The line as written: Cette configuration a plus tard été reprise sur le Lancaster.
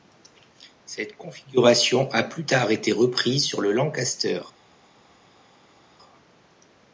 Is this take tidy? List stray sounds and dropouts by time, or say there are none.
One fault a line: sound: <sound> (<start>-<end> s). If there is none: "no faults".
no faults